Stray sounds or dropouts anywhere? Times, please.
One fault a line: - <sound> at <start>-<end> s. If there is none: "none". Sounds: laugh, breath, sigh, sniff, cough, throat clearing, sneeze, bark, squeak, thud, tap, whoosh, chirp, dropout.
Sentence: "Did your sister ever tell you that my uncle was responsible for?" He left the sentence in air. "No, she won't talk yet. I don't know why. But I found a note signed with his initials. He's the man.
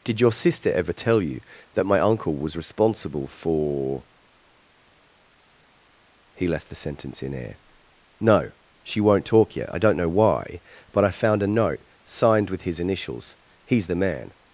none